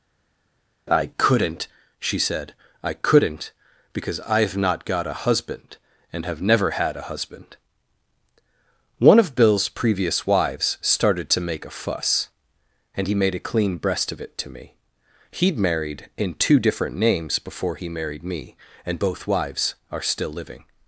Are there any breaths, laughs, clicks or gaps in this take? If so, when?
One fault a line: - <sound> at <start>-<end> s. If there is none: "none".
none